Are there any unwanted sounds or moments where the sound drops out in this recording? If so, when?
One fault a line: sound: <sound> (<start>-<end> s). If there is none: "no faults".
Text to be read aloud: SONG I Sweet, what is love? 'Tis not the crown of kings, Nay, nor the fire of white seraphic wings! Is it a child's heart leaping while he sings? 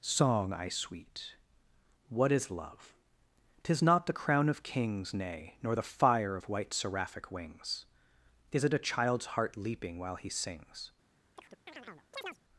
sound: chirp (11.4-12.4 s)